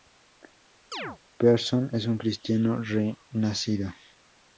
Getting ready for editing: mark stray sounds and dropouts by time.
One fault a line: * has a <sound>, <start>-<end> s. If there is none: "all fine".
* has a chirp, 0.9-1.2 s